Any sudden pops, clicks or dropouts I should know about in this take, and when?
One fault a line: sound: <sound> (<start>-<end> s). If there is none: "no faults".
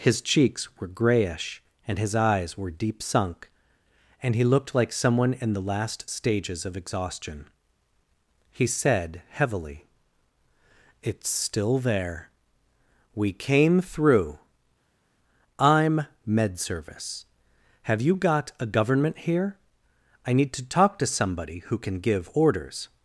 no faults